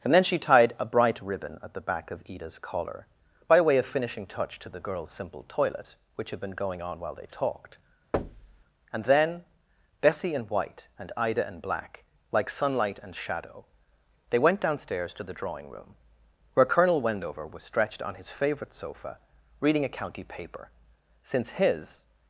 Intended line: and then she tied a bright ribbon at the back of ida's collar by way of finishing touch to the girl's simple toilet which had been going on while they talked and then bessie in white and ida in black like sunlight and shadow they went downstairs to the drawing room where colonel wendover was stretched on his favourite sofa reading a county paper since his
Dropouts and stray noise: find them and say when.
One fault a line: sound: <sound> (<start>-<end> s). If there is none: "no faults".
sound: thud (8.1-8.6 s)